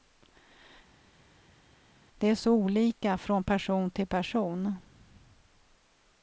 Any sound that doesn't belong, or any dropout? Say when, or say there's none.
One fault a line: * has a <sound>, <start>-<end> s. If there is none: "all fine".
all fine